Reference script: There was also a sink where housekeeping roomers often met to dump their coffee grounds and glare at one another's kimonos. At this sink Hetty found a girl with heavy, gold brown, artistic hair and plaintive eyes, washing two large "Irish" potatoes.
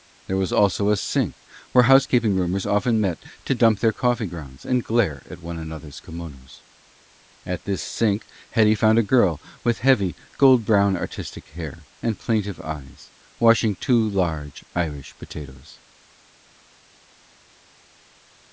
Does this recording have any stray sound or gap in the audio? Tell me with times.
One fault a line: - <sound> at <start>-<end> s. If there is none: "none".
none